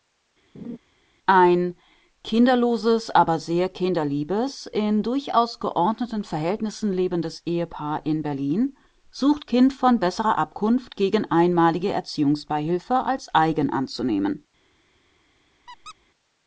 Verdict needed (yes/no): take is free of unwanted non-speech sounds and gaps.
no